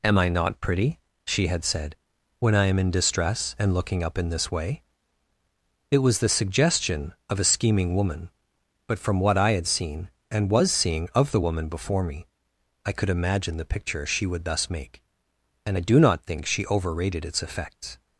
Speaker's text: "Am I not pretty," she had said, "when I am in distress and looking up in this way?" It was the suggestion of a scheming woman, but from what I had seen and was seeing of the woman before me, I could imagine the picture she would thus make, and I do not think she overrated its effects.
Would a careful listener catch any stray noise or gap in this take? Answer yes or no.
no